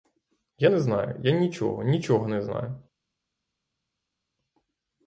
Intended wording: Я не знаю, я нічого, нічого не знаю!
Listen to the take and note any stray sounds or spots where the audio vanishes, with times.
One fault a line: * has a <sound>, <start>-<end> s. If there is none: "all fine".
all fine